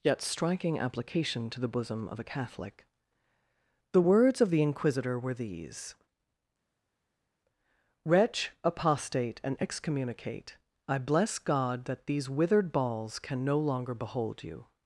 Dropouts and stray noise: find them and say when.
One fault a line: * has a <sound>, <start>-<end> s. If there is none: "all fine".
all fine